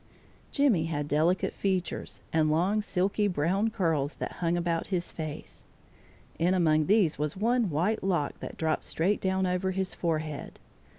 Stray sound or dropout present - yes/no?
no